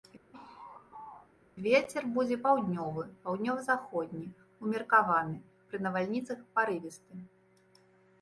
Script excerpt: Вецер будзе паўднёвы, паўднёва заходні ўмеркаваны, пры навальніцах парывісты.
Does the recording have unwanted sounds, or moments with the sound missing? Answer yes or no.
yes